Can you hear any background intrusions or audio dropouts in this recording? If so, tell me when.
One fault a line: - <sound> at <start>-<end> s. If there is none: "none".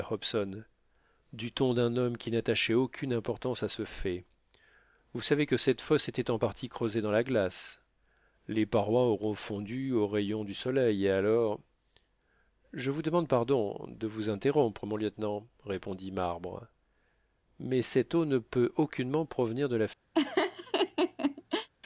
- laugh at 20.1-21.7 s